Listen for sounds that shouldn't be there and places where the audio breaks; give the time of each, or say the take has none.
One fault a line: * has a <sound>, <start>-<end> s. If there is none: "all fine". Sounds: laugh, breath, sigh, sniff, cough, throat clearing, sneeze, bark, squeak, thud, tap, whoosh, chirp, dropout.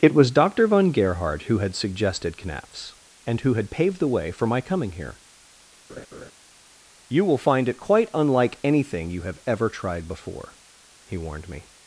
* has a laugh, 5.9-6.3 s